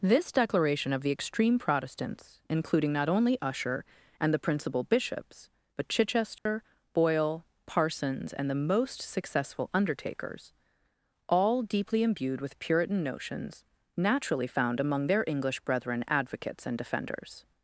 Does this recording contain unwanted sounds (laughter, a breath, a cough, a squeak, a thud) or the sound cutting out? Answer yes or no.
yes